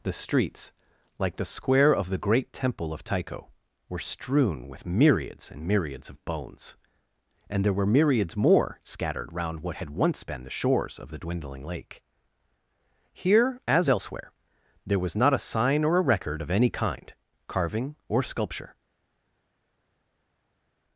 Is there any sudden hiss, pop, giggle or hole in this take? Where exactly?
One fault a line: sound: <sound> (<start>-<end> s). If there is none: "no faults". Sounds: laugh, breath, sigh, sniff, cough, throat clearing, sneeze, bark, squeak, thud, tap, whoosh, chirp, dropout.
no faults